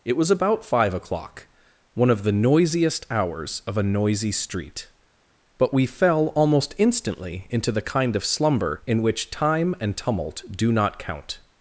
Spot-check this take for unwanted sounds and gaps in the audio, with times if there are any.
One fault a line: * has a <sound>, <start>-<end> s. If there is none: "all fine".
all fine